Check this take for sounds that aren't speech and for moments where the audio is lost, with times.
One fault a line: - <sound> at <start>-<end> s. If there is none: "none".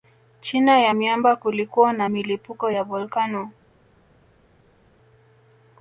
none